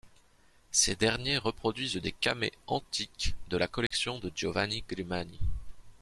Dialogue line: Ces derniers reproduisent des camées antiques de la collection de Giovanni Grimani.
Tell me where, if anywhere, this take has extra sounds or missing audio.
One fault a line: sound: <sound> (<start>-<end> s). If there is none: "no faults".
sound: dropout (3.9-3.9 s)